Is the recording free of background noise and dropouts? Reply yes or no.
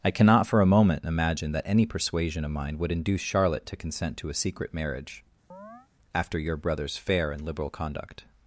no